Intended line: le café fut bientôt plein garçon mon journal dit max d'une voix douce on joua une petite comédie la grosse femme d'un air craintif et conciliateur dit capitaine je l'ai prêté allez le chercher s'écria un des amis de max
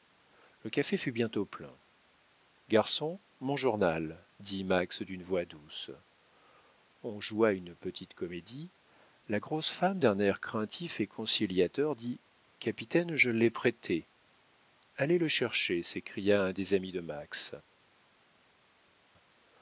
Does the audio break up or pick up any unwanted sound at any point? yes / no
no